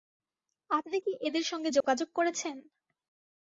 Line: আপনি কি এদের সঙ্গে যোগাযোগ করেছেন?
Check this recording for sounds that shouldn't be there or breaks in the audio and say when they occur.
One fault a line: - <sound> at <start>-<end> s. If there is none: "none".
- dropout at 1.8-1.8 s